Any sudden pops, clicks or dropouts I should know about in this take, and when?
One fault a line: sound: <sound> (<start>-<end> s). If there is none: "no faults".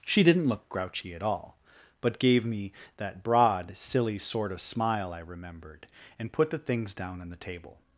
no faults